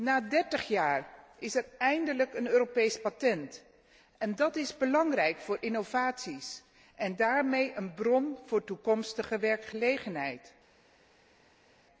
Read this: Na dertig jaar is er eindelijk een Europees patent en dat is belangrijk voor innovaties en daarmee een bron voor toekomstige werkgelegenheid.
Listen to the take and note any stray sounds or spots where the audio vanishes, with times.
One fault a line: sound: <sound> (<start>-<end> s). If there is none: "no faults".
no faults